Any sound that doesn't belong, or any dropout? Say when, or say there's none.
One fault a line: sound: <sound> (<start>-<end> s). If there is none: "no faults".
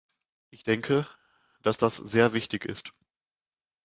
no faults